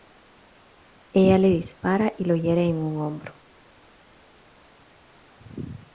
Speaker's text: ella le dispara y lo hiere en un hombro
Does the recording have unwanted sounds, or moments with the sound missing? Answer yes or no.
no